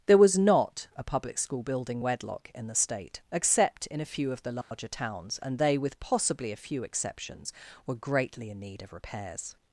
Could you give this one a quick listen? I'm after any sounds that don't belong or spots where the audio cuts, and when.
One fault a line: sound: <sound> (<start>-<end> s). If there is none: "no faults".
sound: dropout (4.6-4.7 s)